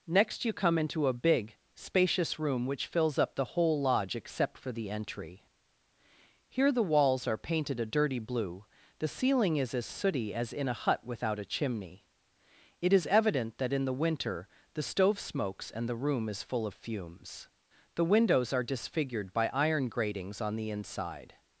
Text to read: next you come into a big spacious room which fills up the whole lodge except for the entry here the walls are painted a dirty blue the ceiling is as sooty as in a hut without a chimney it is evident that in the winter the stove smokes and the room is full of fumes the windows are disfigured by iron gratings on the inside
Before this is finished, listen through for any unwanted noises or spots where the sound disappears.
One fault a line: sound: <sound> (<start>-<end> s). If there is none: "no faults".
no faults